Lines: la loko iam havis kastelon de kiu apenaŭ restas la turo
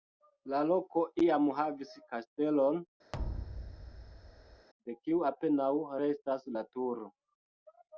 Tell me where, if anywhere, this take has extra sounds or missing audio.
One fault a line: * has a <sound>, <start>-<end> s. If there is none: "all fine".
* has a thud, 3.1-4.7 s